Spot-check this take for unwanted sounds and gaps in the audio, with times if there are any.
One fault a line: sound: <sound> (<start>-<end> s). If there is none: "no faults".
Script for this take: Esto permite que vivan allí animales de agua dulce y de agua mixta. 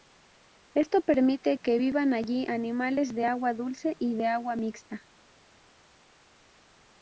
no faults